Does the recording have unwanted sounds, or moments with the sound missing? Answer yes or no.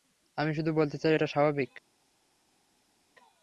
no